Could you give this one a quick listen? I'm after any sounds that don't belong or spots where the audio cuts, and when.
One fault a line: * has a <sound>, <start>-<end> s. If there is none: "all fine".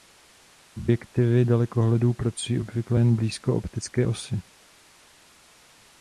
all fine